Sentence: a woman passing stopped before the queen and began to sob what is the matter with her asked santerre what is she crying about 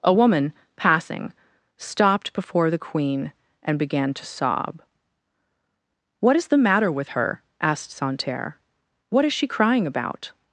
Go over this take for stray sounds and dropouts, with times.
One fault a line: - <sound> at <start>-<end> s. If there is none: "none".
none